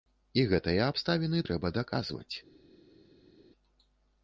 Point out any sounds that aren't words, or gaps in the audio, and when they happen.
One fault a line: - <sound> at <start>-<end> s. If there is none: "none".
none